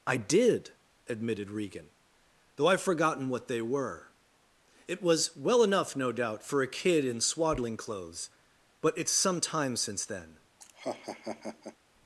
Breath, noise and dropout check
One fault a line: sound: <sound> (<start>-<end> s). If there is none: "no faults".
sound: laugh (10.6-11.8 s)